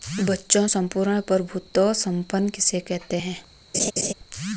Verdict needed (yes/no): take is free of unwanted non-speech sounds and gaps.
no